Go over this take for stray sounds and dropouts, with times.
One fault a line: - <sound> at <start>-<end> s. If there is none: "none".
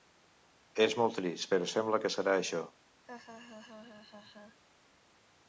- laugh at 3.1-4.6 s